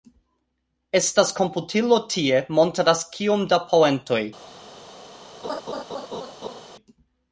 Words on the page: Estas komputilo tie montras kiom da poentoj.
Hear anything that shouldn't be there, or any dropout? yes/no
yes